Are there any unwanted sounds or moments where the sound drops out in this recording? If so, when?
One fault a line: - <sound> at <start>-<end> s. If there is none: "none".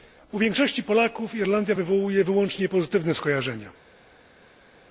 none